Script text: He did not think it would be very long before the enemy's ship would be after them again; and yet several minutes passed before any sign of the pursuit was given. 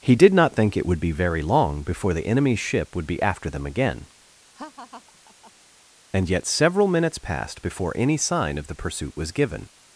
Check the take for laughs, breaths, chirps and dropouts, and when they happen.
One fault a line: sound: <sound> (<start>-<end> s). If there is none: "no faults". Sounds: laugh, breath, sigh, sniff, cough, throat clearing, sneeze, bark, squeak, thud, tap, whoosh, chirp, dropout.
sound: laugh (4.6-5.5 s)